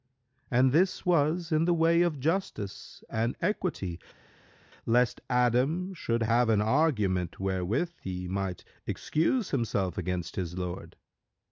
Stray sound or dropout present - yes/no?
no